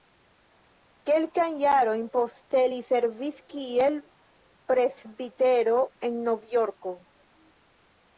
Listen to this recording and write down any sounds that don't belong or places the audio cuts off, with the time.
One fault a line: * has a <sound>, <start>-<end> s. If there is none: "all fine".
all fine